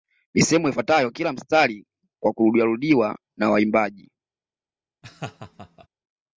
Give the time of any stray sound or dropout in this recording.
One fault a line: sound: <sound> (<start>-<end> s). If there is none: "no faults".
sound: laugh (5.0-5.9 s)